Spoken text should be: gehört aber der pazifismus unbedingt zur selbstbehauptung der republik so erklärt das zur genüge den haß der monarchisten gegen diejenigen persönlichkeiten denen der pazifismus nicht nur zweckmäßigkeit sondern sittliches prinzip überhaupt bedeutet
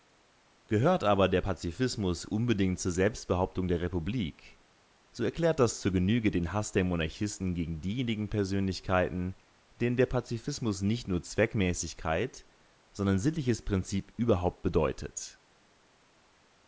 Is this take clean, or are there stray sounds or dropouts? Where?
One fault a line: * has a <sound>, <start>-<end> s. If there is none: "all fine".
all fine